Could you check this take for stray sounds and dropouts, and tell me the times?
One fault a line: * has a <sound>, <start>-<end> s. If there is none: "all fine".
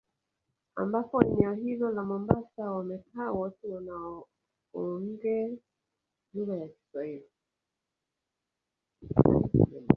all fine